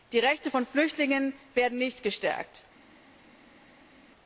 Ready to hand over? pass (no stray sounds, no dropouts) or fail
pass